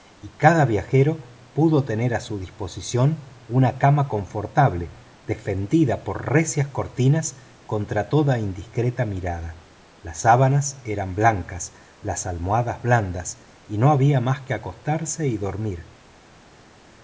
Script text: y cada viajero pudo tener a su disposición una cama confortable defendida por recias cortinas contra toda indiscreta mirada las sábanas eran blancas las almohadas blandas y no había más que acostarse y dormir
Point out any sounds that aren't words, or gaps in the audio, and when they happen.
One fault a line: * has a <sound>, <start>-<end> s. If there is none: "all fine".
all fine